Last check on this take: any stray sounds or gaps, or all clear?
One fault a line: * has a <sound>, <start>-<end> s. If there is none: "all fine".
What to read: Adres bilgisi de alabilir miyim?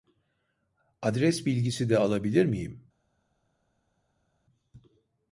all fine